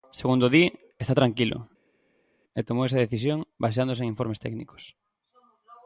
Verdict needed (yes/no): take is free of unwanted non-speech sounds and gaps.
yes